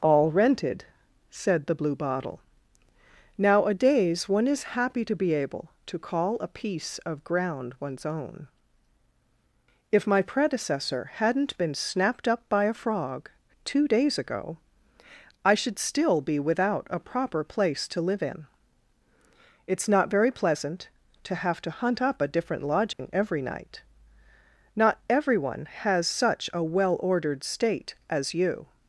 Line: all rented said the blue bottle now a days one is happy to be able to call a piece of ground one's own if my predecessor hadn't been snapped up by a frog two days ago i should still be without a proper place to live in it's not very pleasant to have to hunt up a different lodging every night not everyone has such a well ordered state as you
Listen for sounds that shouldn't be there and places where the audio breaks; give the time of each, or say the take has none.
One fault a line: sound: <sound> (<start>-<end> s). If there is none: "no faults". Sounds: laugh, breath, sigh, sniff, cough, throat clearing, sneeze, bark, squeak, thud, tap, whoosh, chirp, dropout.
sound: dropout (22.9-23.0 s)